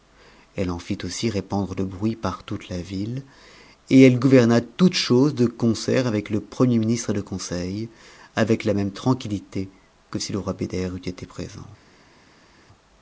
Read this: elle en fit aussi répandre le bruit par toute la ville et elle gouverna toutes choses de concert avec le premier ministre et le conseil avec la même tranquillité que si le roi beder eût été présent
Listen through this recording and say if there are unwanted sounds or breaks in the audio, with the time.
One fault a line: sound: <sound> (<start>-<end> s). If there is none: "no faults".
no faults